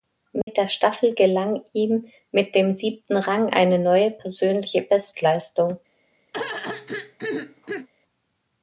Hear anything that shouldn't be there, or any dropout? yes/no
yes